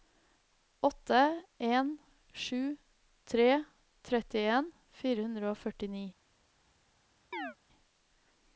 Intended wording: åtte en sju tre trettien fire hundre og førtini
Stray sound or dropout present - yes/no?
yes